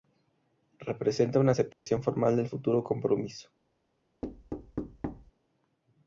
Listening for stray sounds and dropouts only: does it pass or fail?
fail